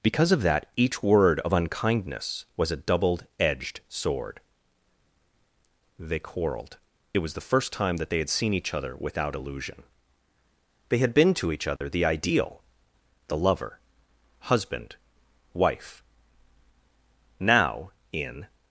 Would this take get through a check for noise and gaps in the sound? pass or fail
fail